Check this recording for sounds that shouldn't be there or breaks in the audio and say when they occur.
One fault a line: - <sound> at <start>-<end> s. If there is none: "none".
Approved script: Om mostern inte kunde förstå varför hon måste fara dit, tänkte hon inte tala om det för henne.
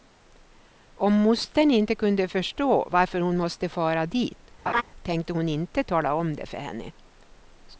- laugh at 4.7-4.8 s